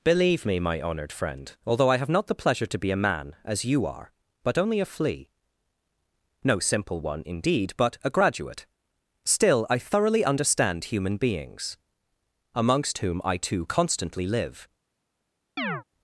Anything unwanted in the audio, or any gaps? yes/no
yes